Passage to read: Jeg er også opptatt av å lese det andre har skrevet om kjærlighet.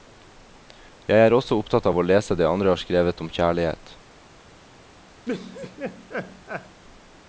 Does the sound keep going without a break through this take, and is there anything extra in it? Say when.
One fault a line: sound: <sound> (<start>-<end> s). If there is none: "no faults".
sound: laugh (5.3-6.8 s)